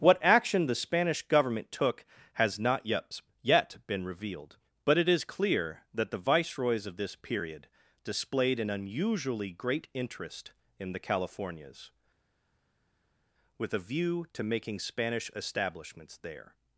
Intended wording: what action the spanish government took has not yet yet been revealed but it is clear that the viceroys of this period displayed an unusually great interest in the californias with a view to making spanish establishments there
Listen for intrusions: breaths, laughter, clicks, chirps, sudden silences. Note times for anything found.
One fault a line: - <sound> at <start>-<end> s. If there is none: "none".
none